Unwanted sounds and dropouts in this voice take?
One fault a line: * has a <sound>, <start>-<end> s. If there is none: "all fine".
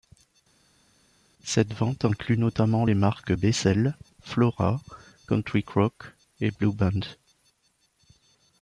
all fine